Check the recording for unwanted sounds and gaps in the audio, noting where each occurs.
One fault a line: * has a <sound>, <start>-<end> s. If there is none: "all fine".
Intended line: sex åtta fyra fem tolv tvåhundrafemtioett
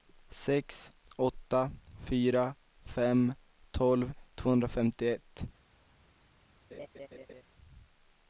* has a laugh, 6.7-7.4 s